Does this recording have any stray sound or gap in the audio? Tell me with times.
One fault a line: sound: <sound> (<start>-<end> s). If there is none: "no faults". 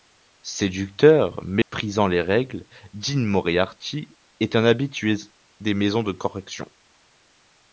sound: dropout (1.6-1.7 s)